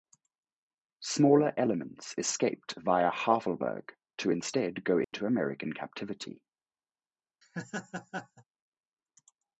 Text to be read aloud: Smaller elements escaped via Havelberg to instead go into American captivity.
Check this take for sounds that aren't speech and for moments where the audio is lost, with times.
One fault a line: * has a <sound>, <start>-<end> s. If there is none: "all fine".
* has a dropout, 5.0-5.1 s
* has a laugh, 7.4-8.4 s